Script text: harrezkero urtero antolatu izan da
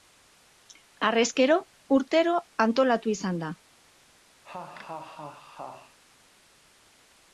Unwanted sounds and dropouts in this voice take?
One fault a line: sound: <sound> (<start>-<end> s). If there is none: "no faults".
sound: laugh (4.4-6.0 s)